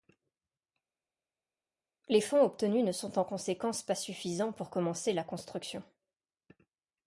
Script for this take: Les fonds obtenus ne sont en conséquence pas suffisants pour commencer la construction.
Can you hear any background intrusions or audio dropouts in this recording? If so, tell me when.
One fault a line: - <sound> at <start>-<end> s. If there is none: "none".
none